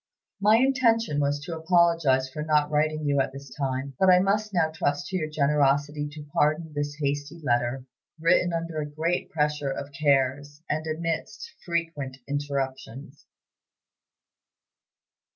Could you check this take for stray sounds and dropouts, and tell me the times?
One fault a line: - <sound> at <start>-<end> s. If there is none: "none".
none